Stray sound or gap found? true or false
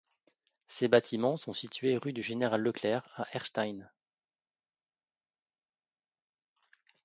false